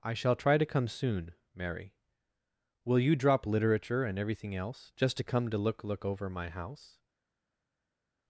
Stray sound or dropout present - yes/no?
no